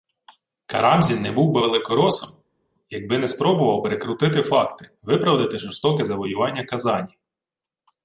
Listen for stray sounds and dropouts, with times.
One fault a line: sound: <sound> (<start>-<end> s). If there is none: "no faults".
no faults